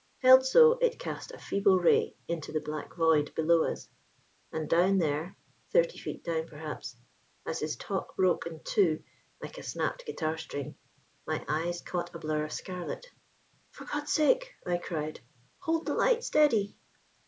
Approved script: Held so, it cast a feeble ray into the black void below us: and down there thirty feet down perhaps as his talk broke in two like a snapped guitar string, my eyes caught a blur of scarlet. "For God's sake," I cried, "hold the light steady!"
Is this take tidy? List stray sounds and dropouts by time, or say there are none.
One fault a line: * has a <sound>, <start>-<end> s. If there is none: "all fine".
all fine